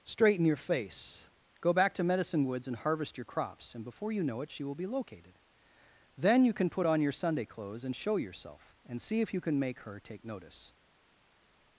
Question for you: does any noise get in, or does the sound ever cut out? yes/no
no